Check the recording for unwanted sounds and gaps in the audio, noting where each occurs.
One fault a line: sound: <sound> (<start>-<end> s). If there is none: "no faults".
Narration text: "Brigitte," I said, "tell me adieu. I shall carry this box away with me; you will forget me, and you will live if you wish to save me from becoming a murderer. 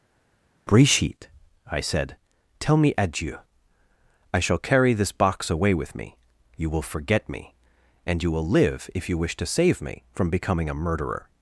no faults